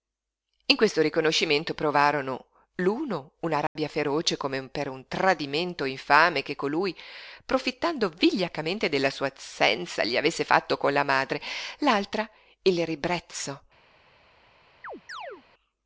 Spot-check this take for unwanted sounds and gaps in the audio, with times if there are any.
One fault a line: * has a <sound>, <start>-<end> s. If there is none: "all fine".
* has a dropout, 3.7-3.8 s
* has a chirp, 14.8-15.4 s